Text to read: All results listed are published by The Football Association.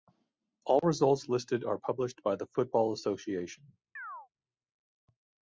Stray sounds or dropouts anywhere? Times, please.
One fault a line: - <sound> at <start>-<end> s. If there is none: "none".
- chirp at 4.0-4.3 s